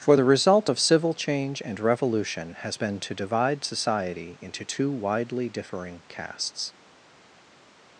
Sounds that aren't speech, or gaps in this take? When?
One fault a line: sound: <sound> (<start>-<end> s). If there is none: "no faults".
no faults